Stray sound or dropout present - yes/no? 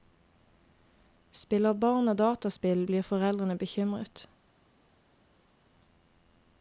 no